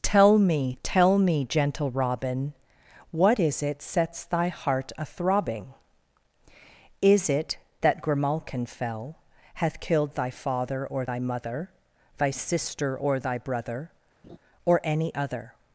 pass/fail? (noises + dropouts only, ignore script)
fail